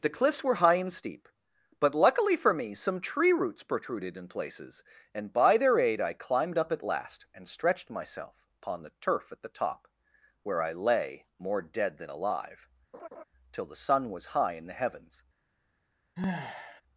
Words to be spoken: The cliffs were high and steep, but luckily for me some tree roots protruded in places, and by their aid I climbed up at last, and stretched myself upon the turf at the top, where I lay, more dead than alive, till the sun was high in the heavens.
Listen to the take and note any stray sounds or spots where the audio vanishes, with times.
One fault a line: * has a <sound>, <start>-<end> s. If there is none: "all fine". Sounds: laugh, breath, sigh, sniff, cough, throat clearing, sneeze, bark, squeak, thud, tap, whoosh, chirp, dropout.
* has a laugh, 12.9-13.2 s
* has a sigh, 16.2-16.8 s